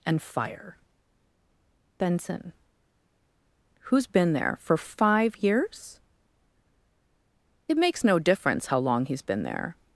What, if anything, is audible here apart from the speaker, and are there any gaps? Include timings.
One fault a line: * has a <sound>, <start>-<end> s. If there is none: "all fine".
all fine